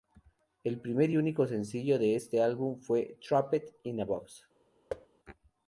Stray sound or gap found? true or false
true